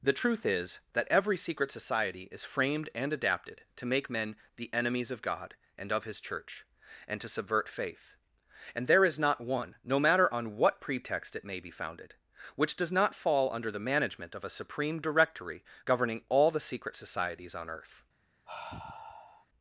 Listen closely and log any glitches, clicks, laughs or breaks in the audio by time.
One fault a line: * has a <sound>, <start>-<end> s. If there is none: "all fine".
* has a sigh, 18.4-19.5 s